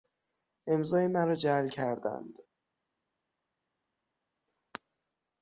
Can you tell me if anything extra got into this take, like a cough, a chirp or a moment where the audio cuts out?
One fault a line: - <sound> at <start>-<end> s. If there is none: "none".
none